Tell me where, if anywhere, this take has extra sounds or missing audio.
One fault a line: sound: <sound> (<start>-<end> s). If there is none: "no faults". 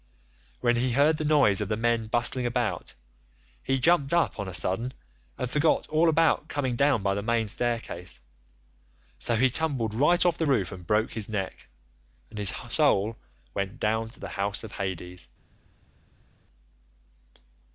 no faults